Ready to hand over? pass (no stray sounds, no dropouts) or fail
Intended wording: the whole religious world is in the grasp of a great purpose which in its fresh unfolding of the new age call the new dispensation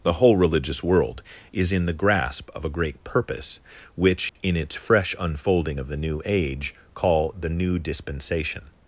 fail